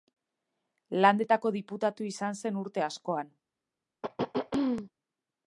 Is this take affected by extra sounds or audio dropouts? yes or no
yes